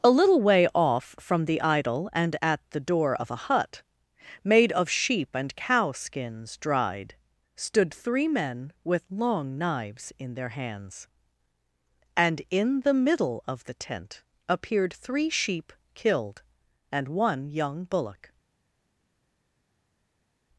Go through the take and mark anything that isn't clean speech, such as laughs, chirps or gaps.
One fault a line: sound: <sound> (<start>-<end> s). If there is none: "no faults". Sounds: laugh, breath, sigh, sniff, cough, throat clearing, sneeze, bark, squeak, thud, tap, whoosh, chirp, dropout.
no faults